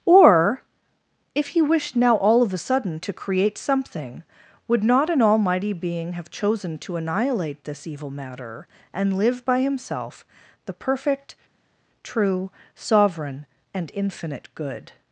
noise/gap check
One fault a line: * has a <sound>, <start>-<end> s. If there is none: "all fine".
all fine